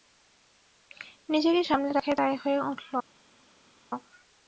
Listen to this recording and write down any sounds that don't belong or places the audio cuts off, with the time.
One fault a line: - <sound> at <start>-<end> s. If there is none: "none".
none